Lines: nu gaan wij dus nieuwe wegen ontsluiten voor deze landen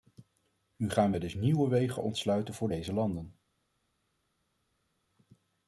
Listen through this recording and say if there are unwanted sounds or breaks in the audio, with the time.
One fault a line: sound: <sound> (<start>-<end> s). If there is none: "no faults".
no faults